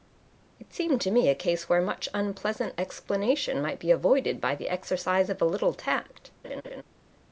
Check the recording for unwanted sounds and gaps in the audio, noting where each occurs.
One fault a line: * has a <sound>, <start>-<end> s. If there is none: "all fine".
* has a laugh, 6.4-6.8 s